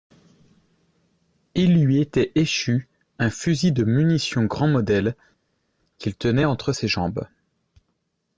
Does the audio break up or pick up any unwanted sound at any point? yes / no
no